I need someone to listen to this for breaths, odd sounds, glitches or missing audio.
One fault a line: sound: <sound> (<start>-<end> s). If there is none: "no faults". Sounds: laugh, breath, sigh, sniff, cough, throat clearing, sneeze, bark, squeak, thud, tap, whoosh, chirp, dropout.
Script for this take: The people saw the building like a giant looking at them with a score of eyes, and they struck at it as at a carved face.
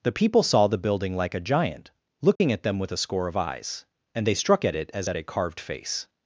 sound: dropout (2.4-2.4 s)